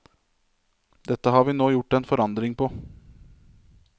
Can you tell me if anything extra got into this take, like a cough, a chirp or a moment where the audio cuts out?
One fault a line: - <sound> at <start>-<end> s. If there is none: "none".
none